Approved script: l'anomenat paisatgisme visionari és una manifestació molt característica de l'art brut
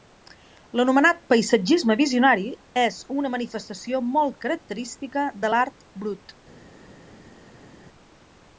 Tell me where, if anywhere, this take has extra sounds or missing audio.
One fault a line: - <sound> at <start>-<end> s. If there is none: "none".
none